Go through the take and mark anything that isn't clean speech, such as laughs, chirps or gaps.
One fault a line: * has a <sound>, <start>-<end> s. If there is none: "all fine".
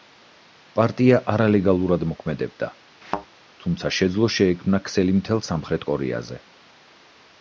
* has a thud, 3.0-3.3 s